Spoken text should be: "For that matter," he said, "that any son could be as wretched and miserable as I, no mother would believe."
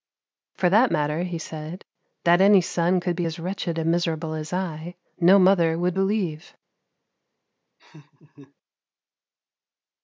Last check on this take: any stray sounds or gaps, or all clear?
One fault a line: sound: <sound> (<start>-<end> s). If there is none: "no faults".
sound: laugh (7.8-8.5 s)